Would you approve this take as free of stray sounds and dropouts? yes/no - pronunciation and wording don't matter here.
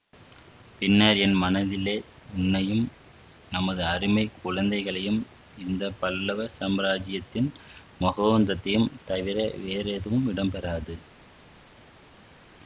yes